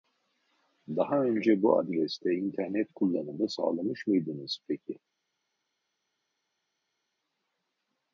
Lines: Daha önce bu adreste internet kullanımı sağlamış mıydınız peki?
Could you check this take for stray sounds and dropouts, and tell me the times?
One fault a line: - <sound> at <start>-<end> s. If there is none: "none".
none